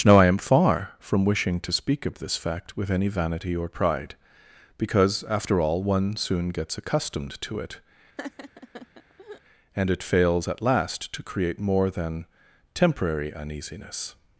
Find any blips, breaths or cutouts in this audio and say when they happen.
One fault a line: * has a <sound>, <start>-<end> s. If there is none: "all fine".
* has a laugh, 8.2-9.4 s